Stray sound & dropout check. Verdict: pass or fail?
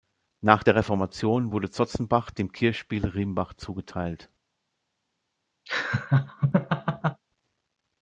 fail